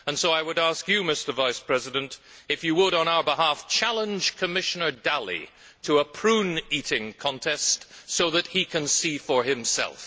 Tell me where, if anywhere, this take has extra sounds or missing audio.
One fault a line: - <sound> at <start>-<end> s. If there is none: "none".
none